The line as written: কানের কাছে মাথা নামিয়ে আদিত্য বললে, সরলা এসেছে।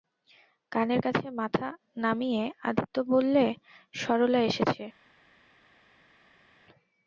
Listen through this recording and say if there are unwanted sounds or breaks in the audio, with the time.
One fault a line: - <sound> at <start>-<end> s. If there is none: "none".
none